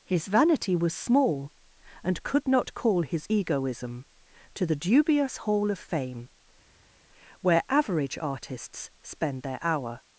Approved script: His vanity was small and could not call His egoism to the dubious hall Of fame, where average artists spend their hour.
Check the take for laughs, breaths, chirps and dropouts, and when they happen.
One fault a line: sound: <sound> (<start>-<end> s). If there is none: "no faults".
no faults